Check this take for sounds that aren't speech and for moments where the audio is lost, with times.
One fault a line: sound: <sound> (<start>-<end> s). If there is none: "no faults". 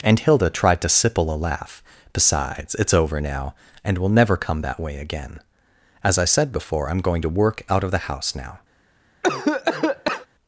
sound: cough (9.2-10.3 s)